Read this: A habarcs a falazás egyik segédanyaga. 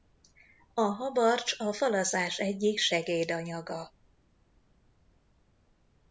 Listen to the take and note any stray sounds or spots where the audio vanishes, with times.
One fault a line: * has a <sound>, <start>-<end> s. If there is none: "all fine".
all fine